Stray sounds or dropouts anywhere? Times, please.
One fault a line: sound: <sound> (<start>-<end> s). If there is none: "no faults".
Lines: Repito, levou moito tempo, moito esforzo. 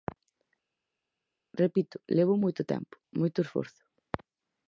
no faults